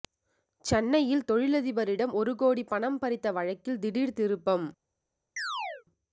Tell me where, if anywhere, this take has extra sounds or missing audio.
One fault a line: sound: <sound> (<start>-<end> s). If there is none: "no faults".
sound: chirp (5.4-5.8 s)